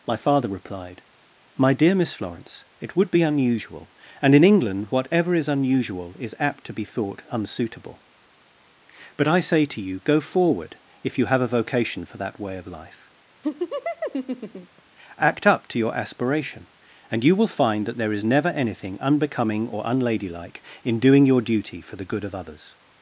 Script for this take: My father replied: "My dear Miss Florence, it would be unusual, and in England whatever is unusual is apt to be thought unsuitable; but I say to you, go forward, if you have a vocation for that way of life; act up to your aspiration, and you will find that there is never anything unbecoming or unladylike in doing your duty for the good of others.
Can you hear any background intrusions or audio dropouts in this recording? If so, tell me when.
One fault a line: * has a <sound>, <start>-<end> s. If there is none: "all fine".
* has a laugh, 13.4-14.8 s